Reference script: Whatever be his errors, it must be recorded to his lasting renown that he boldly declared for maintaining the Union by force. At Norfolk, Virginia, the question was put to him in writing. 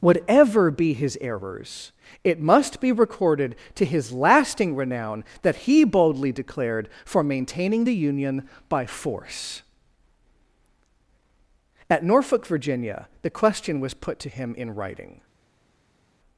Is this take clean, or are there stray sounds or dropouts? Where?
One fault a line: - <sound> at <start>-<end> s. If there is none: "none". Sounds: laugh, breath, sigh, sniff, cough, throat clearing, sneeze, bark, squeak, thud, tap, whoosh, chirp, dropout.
none